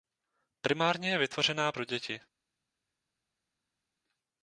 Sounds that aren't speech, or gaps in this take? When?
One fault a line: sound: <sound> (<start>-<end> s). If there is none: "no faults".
no faults